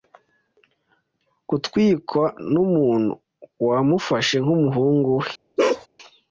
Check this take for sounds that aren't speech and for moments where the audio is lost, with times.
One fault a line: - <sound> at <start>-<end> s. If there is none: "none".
- bark at 5.6-5.9 s